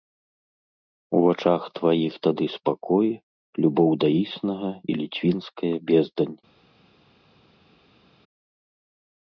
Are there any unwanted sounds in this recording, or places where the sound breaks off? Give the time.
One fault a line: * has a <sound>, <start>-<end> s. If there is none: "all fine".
all fine